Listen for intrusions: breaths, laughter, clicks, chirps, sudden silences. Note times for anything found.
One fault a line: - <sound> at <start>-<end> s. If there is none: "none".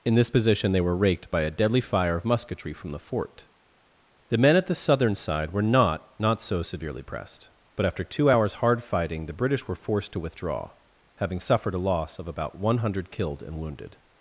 none